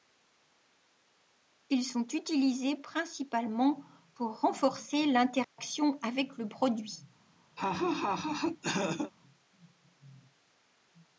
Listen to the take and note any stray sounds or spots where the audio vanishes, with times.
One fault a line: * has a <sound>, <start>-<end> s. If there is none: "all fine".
* has a dropout, 5.4-5.6 s
* has a laugh, 7.6-9.1 s